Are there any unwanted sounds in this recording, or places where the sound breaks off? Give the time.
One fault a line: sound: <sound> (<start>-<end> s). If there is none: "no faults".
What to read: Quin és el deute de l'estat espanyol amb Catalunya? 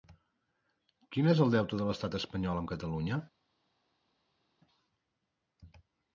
no faults